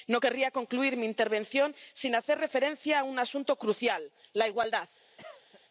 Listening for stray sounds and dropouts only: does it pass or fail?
fail